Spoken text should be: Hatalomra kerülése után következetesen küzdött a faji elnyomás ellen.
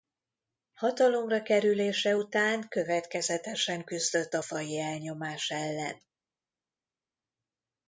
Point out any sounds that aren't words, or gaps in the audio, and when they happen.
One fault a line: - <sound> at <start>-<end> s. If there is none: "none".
none